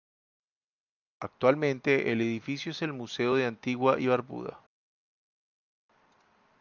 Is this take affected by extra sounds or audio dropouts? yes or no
no